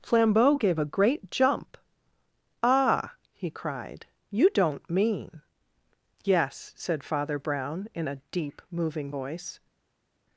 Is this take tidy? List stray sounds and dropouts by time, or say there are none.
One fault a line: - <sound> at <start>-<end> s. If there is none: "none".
none